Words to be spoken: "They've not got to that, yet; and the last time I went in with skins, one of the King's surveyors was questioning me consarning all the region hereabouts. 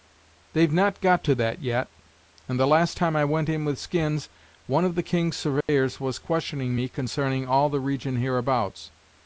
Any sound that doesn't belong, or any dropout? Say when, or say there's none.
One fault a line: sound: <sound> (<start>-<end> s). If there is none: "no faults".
sound: dropout (5.6-5.7 s)